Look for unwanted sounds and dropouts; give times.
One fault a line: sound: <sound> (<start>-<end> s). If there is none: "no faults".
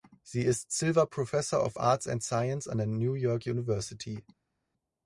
no faults